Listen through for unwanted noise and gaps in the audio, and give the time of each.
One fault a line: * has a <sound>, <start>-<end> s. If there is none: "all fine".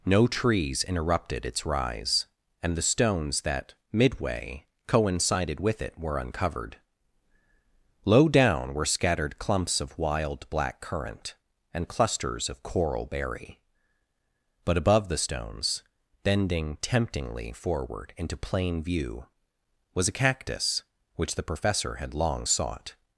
all fine